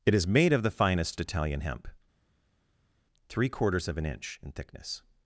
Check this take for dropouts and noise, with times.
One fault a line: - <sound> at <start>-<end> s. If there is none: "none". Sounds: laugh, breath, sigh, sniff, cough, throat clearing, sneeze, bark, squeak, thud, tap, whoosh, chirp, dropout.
none